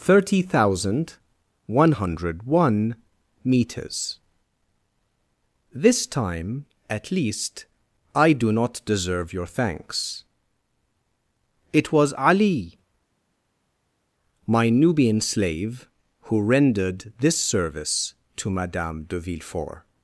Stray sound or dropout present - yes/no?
no